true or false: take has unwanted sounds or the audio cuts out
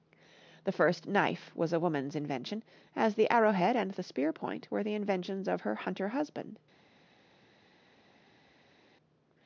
false